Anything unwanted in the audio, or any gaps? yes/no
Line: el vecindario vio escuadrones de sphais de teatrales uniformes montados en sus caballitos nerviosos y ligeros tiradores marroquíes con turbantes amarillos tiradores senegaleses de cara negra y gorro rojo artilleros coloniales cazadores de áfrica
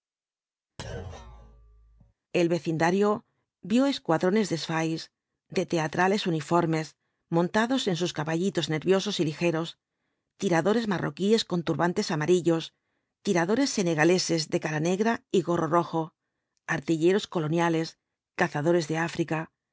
yes